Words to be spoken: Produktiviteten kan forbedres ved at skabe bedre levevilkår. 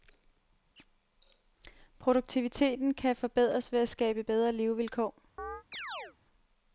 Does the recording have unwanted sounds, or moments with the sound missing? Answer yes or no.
yes